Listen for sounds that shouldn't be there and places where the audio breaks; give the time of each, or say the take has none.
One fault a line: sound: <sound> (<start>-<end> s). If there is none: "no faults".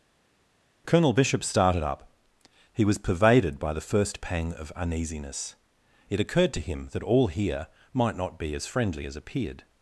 no faults